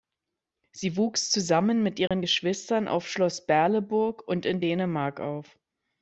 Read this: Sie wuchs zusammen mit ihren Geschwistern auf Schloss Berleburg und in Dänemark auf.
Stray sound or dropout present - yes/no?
yes